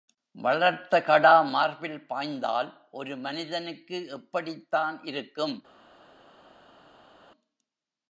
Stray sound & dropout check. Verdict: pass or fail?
pass